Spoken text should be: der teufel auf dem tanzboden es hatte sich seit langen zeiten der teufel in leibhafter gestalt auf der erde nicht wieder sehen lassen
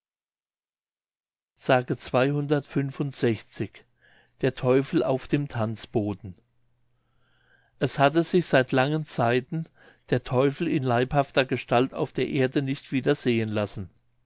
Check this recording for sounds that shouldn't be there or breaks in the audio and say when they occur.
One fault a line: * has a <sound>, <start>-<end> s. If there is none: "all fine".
all fine